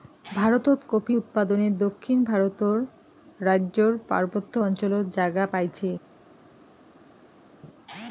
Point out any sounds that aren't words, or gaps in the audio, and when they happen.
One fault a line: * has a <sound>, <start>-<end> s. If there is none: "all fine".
all fine